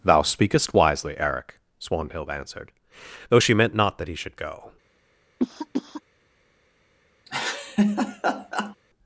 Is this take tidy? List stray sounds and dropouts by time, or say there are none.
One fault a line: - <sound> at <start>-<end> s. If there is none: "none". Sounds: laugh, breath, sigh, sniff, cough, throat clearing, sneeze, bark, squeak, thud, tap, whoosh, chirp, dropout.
- cough at 5.4-6.0 s
- laugh at 7.3-8.8 s